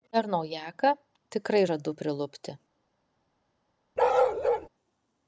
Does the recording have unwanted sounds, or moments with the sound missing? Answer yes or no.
yes